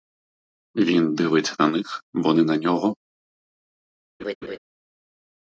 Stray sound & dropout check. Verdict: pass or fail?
fail